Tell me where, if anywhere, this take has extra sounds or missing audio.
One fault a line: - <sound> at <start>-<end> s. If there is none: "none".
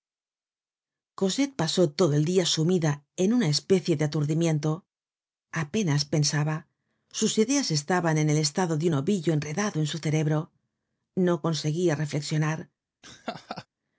- laugh at 13.0-13.7 s